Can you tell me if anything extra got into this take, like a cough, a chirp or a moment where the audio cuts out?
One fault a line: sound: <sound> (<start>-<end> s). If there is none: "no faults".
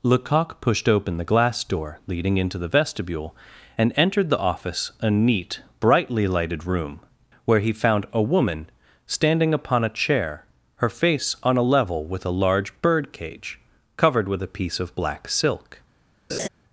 sound: laugh (16.3-16.5 s)